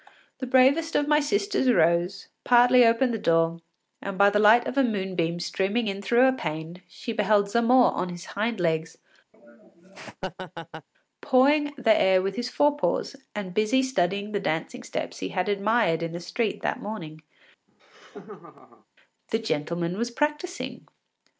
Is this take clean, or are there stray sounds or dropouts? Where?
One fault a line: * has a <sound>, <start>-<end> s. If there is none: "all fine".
* has a laugh, 9.3-10.9 s
* has a laugh, 17.7-18.9 s